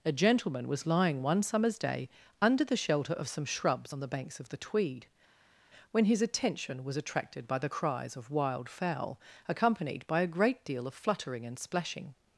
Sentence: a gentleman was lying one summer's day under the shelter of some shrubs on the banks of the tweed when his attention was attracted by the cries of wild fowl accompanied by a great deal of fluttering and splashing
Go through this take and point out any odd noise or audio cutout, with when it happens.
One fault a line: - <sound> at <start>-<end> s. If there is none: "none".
none